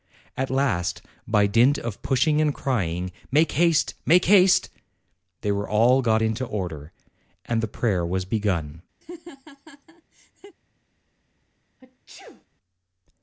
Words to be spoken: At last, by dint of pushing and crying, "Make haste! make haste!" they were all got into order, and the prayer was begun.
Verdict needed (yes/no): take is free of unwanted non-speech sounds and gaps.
no